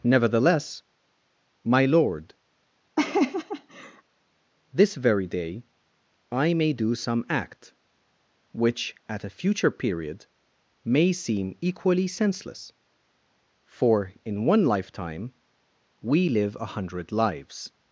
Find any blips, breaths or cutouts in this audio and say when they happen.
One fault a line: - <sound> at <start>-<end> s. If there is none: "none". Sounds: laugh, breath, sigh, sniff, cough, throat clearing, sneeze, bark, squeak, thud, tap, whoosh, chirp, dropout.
- laugh at 3.0-4.0 s